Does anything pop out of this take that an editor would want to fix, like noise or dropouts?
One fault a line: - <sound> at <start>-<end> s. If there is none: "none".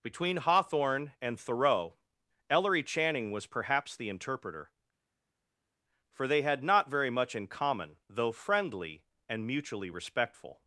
none